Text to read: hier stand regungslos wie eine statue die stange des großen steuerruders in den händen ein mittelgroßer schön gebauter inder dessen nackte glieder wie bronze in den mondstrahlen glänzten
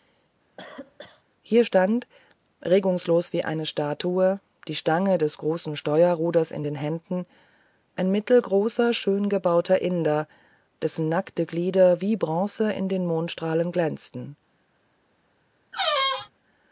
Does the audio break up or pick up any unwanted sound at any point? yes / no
yes